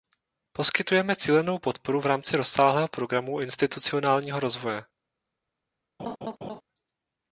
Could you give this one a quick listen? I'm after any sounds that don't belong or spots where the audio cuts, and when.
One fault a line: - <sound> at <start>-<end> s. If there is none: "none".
- laugh at 6.0-6.6 s